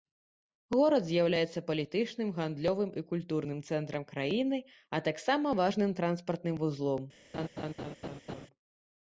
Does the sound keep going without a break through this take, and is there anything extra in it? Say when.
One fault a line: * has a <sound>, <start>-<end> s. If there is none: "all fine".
* has a laugh, 7.3-8.5 s